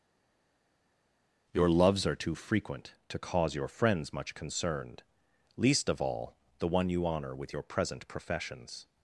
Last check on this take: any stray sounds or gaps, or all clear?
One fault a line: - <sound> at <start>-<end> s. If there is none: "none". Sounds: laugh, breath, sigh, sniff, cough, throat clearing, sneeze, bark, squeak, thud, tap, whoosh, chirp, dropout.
none